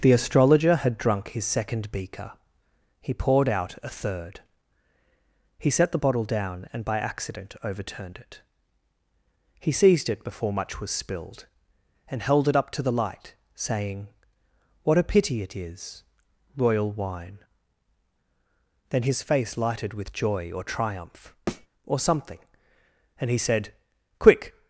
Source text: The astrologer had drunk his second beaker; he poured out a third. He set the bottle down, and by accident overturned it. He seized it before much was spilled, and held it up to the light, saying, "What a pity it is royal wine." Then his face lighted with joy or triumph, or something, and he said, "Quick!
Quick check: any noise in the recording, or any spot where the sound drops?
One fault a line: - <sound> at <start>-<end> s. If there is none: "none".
- thud at 21.5-21.7 s